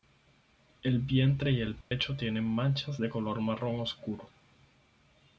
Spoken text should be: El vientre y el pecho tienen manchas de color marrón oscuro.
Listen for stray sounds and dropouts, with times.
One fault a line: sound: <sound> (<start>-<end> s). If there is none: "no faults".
sound: dropout (1.8-1.9 s)